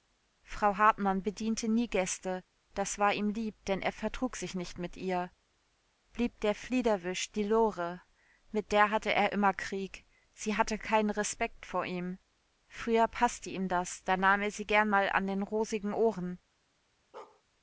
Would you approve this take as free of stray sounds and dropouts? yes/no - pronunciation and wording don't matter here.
no